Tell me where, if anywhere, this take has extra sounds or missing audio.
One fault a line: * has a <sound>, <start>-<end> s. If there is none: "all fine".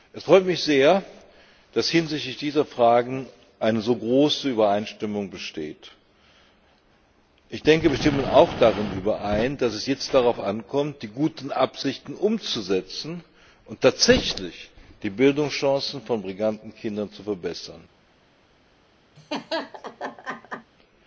* has a laugh, 19.2-20.7 s